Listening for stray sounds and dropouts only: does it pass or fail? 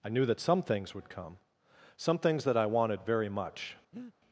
fail